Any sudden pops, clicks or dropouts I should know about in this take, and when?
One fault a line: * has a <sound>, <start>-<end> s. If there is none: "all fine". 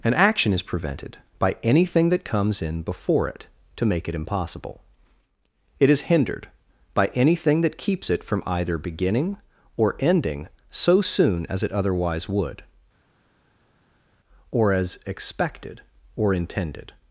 all fine